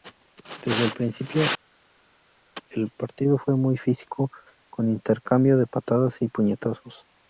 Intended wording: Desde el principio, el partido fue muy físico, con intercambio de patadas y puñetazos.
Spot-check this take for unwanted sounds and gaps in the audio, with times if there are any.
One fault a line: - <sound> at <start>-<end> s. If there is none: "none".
none